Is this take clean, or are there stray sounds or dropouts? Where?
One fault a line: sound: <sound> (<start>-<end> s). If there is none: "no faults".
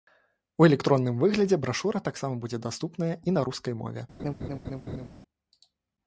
sound: laugh (4.2-5.1 s)